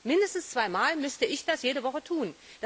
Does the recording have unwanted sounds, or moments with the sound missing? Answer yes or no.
no